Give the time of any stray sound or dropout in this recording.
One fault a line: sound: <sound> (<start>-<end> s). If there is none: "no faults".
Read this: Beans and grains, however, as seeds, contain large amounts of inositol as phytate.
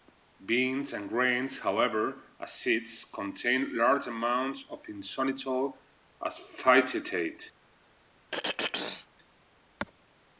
sound: throat clearing (8.3-9.1 s)